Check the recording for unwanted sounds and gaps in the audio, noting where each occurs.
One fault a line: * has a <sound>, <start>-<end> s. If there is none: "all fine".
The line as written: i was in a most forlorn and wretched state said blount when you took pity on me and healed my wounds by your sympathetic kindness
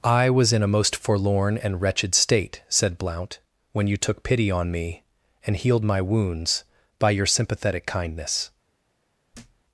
* has a thud, 9.3-9.6 s